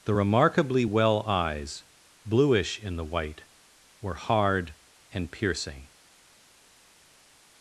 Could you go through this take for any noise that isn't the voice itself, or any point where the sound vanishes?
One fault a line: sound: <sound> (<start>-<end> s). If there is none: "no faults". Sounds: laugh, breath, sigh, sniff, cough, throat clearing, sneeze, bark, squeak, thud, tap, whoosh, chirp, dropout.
no faults